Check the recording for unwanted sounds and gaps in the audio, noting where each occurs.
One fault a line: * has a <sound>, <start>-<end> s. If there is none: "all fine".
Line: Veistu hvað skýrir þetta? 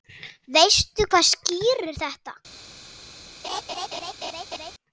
* has a laugh, 3.4-4.7 s